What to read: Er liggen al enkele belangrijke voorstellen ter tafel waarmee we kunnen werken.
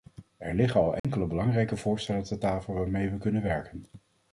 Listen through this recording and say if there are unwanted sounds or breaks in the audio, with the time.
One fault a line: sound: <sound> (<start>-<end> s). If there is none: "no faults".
sound: dropout (1.0-1.0 s)